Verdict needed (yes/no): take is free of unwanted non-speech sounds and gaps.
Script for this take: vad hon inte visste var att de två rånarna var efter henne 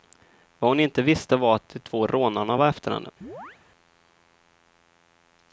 no